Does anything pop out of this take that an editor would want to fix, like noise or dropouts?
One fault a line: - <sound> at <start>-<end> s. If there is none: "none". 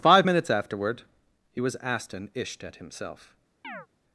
- chirp at 3.6-3.9 s